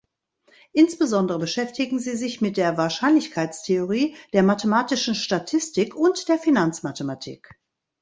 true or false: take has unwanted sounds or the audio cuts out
false